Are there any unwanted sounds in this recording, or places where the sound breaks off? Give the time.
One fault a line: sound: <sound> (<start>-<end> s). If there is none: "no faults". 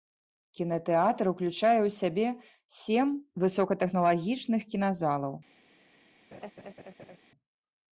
sound: laugh (6.3-7.2 s)